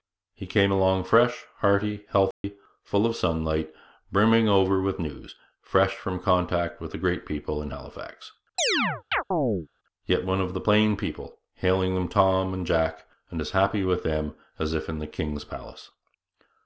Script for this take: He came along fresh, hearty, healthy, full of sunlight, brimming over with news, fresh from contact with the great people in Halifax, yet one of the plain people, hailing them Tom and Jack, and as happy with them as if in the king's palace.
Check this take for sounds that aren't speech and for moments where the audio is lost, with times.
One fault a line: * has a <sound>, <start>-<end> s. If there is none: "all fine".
* has a dropout, 2.3-2.4 s
* has a chirp, 8.6-9.7 s